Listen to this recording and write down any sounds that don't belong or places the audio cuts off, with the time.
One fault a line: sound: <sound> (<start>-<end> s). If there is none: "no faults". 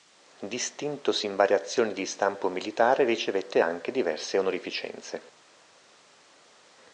no faults